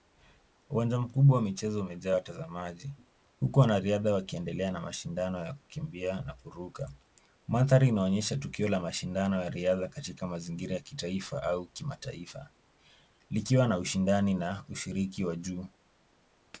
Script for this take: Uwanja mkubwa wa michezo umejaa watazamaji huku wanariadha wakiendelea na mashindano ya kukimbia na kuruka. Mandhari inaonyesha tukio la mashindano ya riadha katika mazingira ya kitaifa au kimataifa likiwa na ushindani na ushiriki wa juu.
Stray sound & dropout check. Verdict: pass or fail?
pass